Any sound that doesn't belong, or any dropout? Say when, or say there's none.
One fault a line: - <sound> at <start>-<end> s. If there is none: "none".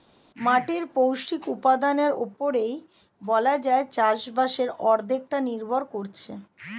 none